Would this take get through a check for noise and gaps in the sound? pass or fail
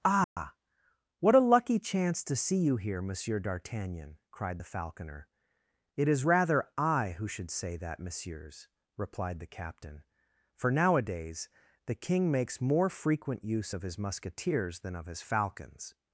fail